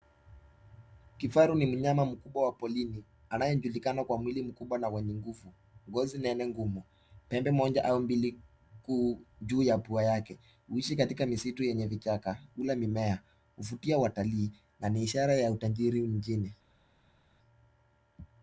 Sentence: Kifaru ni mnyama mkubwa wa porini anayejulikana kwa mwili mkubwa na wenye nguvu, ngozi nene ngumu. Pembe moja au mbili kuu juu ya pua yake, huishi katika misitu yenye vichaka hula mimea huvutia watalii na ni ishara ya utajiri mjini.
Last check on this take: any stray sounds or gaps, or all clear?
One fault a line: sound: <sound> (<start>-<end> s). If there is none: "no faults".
no faults